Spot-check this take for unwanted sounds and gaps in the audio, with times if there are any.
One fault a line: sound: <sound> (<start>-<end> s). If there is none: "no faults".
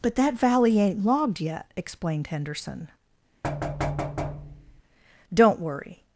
sound: thud (3.4-4.8 s)